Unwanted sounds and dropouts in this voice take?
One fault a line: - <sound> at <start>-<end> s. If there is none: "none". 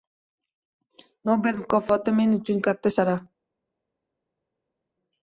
none